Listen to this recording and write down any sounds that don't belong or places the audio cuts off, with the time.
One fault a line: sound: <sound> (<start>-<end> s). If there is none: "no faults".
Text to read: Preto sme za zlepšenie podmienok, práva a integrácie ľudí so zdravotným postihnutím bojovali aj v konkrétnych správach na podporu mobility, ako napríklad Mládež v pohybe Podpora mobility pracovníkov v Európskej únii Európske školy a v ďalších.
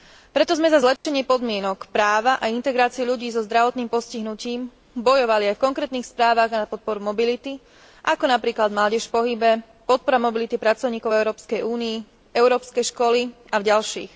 sound: dropout (1.0-1.0 s)